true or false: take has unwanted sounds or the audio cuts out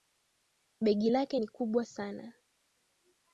false